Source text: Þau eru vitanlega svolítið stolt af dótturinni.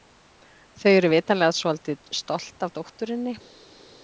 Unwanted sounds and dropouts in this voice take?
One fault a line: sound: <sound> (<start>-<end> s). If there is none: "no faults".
no faults